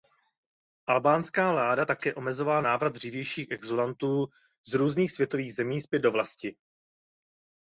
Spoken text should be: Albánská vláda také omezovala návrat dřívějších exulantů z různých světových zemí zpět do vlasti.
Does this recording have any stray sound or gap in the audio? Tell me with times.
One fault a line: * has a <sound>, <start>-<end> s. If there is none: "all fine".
all fine